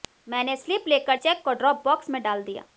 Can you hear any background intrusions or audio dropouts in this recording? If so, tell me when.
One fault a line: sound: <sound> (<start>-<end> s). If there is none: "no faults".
no faults